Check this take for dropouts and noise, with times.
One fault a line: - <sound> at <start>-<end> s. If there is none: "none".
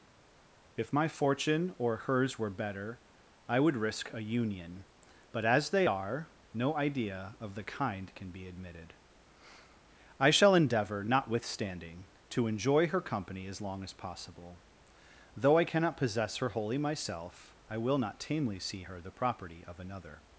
none